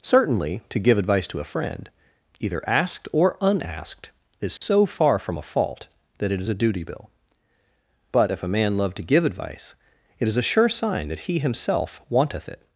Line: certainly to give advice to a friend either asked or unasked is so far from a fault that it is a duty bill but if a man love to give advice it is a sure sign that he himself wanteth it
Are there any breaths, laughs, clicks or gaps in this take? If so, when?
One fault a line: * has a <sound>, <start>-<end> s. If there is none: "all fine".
* has a dropout, 4.6-4.6 s